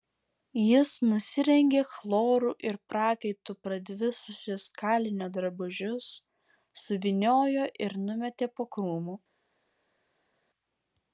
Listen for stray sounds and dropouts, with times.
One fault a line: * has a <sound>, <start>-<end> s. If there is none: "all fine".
all fine